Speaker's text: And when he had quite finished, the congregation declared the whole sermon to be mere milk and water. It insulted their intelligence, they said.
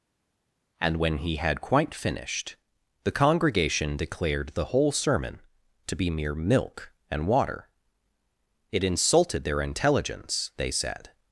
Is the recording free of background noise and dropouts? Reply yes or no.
yes